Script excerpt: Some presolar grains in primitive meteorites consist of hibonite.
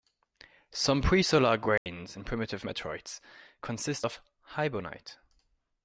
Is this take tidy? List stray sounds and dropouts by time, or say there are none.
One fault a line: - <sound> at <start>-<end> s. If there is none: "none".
- dropout at 1.8-1.9 s